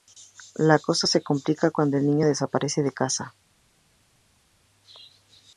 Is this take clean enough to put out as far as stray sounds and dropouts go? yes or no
yes